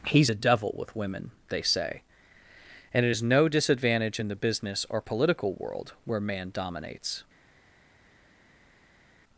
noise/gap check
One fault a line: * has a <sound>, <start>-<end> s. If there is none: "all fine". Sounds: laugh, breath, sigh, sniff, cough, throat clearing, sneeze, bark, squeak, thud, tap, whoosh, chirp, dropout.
all fine